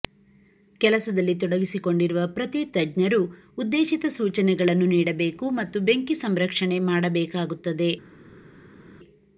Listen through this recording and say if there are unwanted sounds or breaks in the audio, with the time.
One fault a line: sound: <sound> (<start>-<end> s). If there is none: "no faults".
no faults